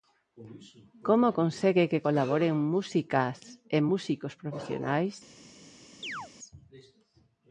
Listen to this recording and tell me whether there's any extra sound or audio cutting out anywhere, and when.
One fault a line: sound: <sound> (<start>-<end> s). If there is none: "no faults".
sound: chirp (6.0-6.3 s)